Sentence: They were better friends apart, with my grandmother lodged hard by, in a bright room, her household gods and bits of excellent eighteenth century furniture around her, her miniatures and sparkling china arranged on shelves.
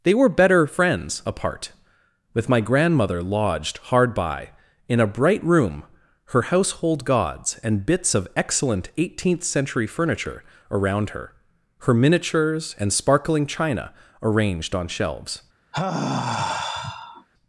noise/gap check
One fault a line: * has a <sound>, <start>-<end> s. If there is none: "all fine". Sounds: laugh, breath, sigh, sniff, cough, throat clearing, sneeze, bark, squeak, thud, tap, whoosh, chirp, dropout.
* has a sigh, 15.7-17.3 s